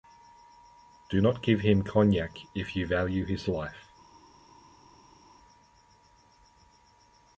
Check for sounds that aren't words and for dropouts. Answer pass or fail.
pass